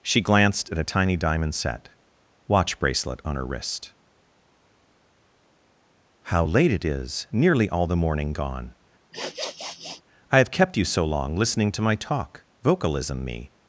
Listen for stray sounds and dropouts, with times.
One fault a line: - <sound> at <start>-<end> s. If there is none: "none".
- sniff at 9.1-10.0 s